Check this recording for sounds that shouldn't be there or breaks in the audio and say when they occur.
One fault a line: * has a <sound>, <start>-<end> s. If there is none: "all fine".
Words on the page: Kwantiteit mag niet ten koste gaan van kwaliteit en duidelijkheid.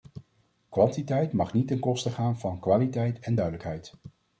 all fine